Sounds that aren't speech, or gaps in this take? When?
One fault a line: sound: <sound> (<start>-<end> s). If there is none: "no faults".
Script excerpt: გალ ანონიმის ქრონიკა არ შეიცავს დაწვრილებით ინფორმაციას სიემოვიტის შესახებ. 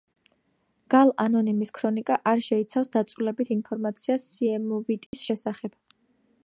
sound: dropout (5.1-5.1 s)